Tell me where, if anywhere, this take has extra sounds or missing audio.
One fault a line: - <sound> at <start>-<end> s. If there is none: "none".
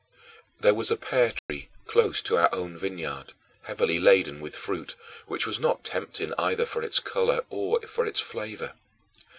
- dropout at 1.4-1.5 s